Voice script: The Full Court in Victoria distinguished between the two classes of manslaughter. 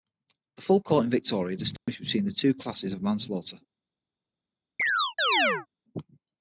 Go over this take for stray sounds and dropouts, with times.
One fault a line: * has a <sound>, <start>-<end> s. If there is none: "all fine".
* has a dropout, 1.8-1.9 s
* has a chirp, 4.8-5.7 s